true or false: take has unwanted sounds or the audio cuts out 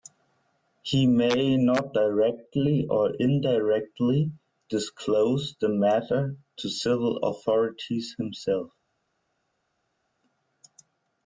false